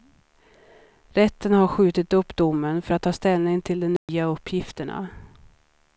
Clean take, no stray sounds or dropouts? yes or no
no